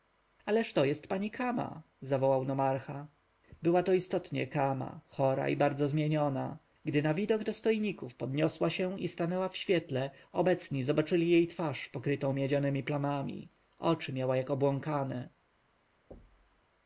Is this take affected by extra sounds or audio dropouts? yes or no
yes